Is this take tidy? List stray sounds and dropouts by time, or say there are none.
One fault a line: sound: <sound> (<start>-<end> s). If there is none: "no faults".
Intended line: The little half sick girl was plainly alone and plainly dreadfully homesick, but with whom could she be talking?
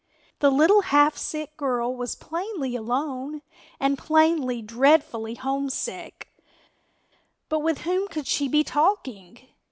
no faults